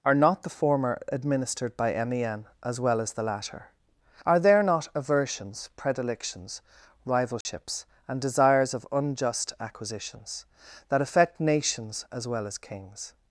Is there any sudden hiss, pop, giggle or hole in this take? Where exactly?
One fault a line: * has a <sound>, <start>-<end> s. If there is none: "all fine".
* has a dropout, 7.4-7.5 s